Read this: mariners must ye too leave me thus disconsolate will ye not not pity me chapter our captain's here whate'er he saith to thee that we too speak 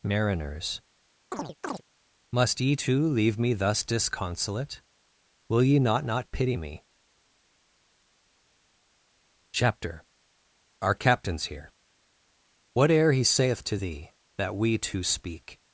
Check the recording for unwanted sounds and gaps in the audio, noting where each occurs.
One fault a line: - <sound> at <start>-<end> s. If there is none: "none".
- chirp at 1.3-1.8 s